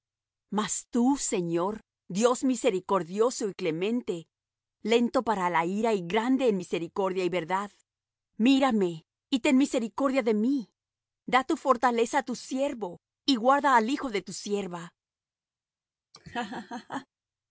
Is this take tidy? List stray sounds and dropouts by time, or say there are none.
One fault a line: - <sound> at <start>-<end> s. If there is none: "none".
- laugh at 16.1-17.1 s